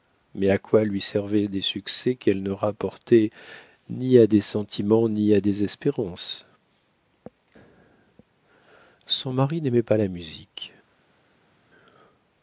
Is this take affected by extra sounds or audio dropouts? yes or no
no